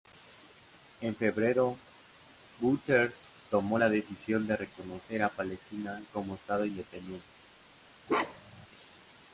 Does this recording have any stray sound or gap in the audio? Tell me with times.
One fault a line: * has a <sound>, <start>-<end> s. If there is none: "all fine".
* has a bark, 8.1-8.7 s